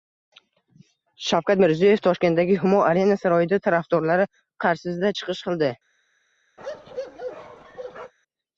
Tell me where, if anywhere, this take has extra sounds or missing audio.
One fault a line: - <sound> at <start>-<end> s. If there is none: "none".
- bark at 6.6-8.1 s